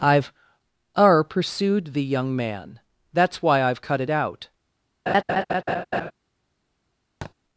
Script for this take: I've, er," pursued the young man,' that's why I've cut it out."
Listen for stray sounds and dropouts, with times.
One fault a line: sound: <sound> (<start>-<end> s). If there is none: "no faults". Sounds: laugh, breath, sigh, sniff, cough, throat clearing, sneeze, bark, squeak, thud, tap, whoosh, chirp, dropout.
sound: laugh (5.1-6.1 s)
sound: thud (7.2-7.3 s)